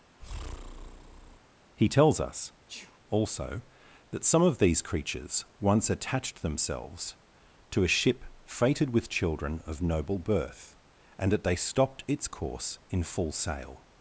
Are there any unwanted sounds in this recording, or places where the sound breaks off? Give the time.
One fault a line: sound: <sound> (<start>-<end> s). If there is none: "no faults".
sound: breath (0.2-1.4 s)
sound: sneeze (2.7-3.0 s)